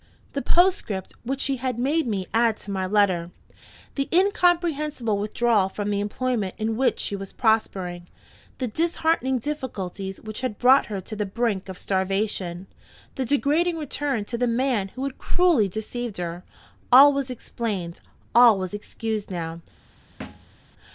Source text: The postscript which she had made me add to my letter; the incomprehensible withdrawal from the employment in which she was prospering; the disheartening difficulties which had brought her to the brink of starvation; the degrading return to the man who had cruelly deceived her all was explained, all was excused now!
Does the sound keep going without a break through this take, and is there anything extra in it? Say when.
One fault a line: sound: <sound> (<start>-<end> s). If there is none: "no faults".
sound: thud (20.2-20.6 s)